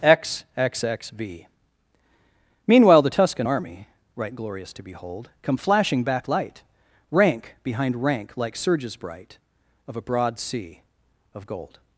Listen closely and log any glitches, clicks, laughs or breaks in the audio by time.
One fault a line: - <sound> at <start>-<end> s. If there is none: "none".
none